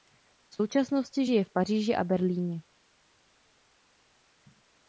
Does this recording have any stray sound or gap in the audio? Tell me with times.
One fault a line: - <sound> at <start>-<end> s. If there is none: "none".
none